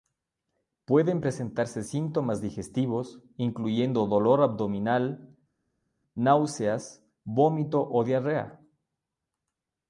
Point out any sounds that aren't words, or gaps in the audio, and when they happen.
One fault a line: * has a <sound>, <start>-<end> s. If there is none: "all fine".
all fine